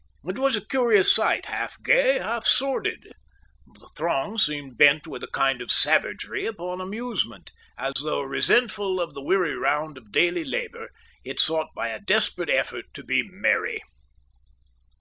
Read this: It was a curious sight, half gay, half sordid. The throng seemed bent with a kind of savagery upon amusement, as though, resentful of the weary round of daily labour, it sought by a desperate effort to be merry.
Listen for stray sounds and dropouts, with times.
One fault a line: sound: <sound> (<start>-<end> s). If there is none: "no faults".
sound: dropout (7.9-8.0 s)